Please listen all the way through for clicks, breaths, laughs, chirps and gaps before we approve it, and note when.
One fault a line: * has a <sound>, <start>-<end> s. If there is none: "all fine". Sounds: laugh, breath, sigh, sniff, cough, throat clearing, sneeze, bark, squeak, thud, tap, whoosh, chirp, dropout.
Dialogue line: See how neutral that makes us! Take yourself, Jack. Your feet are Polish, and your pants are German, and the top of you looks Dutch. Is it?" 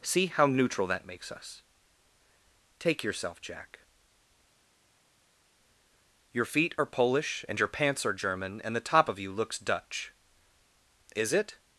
all fine